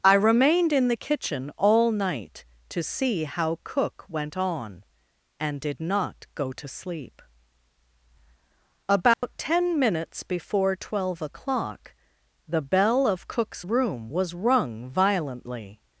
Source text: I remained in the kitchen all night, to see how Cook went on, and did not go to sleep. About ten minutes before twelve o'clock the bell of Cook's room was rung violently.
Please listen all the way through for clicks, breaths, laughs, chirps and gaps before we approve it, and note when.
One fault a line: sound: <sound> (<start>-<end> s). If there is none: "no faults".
sound: dropout (9.1-9.2 s)